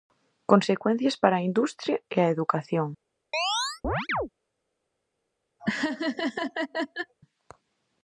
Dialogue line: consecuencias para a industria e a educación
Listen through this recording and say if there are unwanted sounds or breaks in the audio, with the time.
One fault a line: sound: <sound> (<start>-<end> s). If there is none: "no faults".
sound: chirp (3.3-4.3 s)
sound: laugh (5.6-7.1 s)